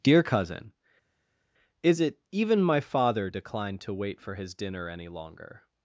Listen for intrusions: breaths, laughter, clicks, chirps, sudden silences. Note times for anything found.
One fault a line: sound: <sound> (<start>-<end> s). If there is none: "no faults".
no faults